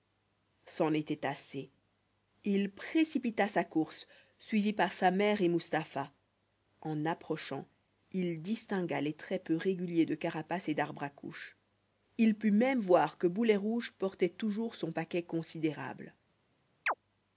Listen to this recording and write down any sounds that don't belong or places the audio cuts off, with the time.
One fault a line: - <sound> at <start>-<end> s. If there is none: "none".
- chirp at 16.9-16.9 s